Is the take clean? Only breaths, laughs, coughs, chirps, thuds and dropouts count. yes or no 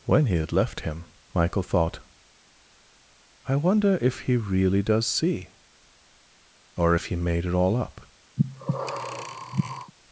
no